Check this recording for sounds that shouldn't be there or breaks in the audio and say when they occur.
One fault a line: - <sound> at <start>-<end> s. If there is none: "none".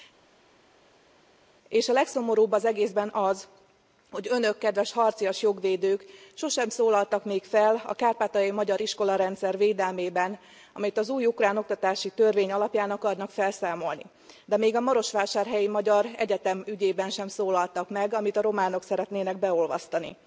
none